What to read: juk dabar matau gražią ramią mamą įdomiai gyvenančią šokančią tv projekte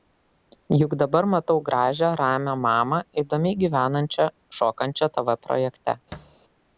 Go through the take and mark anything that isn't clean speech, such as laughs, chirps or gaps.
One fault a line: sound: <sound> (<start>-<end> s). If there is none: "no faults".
sound: thud (6.1-6.4 s)